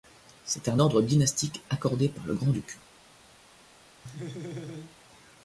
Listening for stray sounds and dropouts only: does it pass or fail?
fail